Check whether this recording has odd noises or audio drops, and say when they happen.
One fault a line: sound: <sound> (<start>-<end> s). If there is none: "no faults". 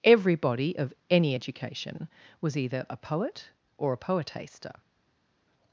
no faults